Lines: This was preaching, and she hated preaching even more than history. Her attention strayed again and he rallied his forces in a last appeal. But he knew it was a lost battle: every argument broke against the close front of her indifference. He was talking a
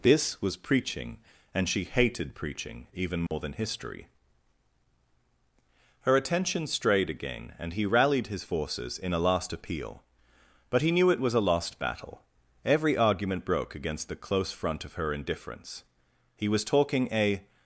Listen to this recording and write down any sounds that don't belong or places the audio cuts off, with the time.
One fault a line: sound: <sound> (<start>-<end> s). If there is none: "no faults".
sound: dropout (3.3-3.3 s)